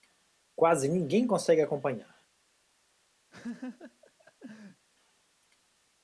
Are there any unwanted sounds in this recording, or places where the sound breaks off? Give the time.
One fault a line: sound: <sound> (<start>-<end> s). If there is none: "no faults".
sound: laugh (3.3-4.9 s)